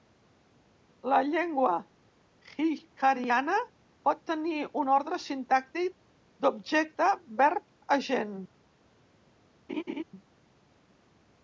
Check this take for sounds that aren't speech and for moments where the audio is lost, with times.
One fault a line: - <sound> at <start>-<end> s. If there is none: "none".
- laugh at 9.7-10.0 s